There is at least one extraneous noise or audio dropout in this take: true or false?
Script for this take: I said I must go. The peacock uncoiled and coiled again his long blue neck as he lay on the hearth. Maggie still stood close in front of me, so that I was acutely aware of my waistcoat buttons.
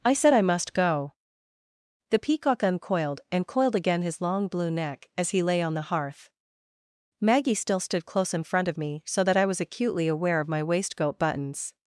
false